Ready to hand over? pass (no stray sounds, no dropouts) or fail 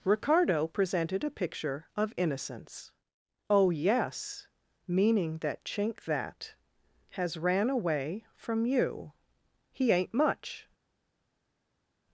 pass